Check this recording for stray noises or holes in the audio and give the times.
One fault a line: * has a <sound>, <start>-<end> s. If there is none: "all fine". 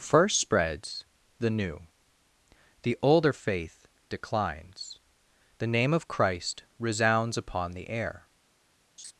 * has a laugh, 9.0-9.1 s